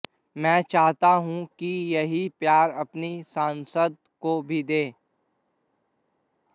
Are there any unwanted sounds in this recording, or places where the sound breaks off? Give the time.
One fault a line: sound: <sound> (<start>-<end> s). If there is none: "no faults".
no faults